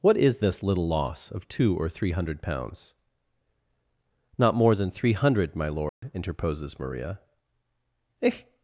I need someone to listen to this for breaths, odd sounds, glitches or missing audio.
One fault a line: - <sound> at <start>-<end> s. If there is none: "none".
- dropout at 5.9-6.0 s